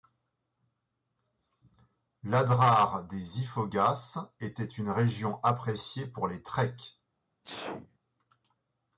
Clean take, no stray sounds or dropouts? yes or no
no